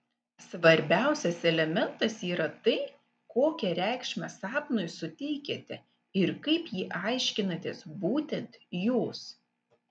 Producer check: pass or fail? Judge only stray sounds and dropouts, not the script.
pass